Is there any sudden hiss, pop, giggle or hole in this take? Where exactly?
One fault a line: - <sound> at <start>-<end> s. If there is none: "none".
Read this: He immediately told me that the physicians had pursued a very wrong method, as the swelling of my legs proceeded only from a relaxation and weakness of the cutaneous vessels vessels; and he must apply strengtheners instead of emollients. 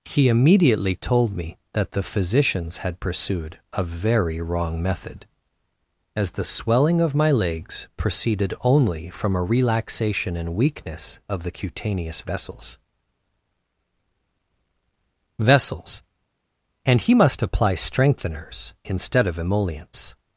none